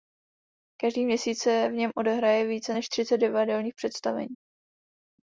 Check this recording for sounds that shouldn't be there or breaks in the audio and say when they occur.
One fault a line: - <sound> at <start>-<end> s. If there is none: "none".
none